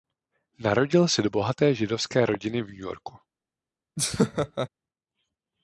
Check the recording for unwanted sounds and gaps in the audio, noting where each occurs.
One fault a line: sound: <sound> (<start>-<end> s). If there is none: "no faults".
sound: laugh (4.0-4.7 s)